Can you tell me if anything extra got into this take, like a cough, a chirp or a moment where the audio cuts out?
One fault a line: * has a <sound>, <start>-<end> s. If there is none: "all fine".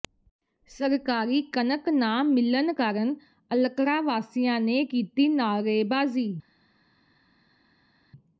all fine